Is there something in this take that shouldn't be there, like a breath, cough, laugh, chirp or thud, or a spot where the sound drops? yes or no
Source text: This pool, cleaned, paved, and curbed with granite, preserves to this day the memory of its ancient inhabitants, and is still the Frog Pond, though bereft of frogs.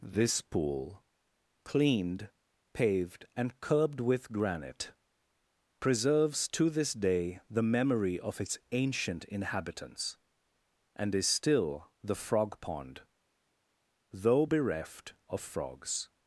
no